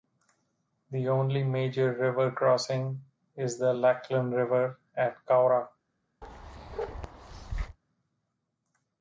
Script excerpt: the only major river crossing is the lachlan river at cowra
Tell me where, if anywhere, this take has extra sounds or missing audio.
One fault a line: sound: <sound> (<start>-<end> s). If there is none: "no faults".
sound: bark (6.2-7.8 s)